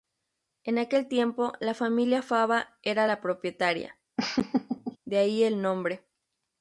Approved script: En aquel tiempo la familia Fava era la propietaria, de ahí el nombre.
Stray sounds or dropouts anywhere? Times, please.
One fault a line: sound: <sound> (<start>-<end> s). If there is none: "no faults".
sound: laugh (4.2-5.0 s)